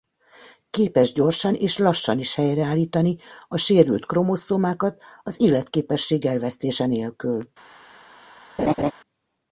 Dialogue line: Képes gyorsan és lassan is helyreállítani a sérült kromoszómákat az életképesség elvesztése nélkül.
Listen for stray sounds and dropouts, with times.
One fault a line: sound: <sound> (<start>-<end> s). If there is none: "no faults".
sound: laugh (8.6-8.9 s)